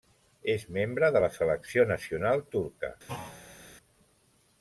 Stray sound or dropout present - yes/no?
yes